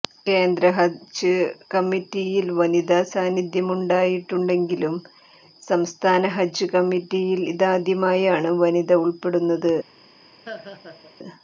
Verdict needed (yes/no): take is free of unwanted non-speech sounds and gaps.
no